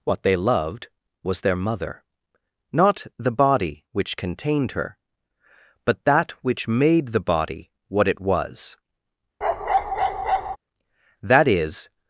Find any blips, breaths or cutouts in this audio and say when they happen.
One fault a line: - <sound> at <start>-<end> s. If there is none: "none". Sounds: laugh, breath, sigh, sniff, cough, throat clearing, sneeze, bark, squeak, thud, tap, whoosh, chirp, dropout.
- bark at 9.4-10.6 s